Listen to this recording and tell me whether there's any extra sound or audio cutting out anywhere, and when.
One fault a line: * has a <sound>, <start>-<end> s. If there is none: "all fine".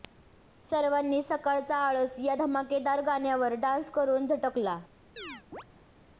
* has a chirp, 5.2-5.6 s